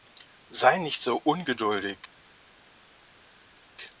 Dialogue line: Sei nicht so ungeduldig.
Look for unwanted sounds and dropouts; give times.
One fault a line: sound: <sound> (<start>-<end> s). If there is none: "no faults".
no faults